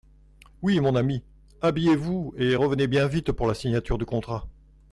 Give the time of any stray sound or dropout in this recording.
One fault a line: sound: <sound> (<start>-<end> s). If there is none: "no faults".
no faults